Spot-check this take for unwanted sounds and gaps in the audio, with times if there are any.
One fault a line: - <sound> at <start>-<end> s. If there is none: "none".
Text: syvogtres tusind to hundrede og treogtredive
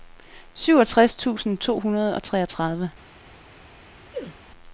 - sneeze at 4.1-4.4 s